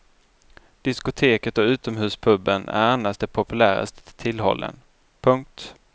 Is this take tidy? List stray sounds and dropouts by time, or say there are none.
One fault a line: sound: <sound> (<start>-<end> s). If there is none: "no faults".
no faults